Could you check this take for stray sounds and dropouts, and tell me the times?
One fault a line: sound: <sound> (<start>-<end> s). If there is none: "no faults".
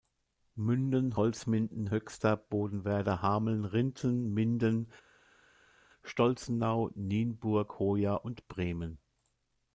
no faults